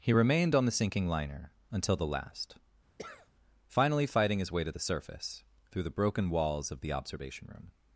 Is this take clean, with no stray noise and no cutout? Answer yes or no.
no